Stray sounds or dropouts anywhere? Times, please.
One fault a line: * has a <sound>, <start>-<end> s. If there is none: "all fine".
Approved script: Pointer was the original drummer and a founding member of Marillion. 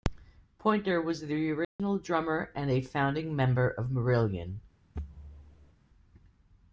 * has a dropout, 1.6-1.8 s
* has a thud, 4.9-5.7 s